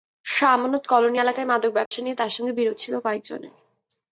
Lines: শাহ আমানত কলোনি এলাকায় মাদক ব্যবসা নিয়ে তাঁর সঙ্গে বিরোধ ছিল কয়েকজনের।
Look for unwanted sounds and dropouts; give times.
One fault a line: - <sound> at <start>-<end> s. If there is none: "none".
- dropout at 1.9-1.9 s